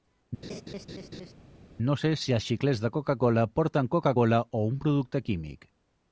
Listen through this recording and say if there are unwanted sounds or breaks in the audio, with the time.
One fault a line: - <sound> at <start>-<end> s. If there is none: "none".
- laugh at 0.4-1.3 s